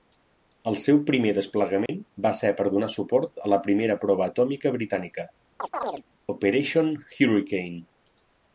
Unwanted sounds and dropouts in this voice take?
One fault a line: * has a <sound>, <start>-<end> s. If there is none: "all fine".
* has a dropout, 1.9-1.9 s
* has a chirp, 5.6-6.0 s